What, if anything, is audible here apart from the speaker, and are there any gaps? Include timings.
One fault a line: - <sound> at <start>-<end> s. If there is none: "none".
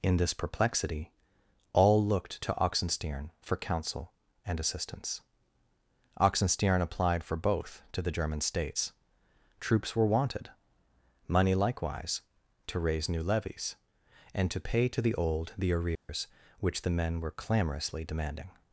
- dropout at 16.0-16.1 s